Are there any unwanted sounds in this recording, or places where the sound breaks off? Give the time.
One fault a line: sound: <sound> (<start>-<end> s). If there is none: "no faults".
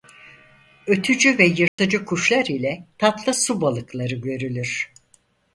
sound: dropout (1.7-1.8 s)